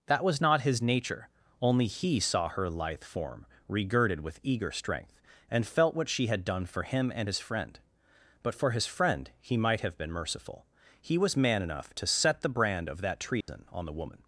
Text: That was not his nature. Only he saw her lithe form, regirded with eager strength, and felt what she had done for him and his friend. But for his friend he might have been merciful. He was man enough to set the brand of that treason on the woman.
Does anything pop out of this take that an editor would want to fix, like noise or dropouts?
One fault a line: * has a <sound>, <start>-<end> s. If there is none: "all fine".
* has a dropout, 13.4-13.5 s